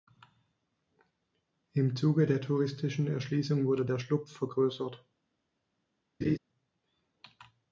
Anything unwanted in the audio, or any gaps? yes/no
yes